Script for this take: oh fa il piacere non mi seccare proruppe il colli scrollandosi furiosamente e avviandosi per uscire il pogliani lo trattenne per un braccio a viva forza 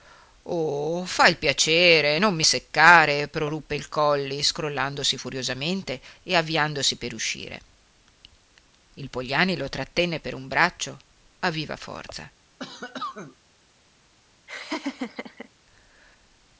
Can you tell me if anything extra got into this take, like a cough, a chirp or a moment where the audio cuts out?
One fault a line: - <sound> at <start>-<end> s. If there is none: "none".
- cough at 12.6-13.4 s
- laugh at 14.5-15.5 s